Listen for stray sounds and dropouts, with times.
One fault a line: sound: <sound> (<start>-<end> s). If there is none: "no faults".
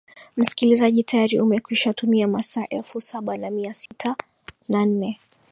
sound: dropout (3.9-3.9 s)